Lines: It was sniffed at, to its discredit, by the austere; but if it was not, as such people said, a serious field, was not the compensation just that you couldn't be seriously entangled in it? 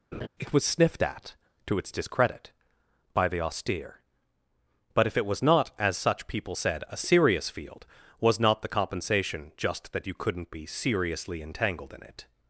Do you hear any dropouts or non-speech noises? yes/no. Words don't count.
yes